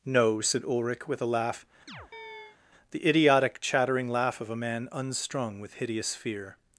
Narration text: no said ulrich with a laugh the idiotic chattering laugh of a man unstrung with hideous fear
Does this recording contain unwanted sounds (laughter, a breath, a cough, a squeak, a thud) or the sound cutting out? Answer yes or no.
yes